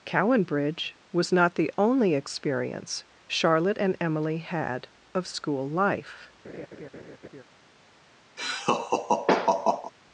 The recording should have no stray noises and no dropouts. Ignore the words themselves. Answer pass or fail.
fail